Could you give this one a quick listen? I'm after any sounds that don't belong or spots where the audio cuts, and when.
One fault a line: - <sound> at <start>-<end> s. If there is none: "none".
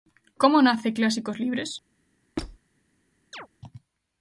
- squeak at 2.4-2.6 s
- chirp at 3.3-3.5 s